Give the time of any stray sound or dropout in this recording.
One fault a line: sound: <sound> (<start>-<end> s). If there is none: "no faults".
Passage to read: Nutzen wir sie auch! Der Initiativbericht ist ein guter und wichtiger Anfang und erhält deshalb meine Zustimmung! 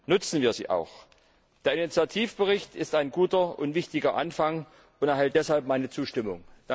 no faults